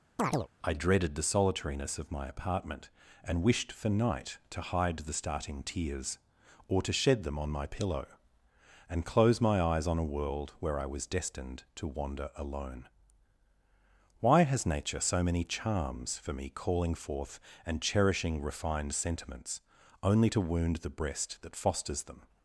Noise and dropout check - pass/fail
fail